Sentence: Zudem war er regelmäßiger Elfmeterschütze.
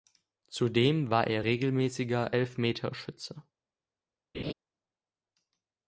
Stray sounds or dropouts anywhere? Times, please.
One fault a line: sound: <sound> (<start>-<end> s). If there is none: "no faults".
sound: laugh (4.3-4.5 s)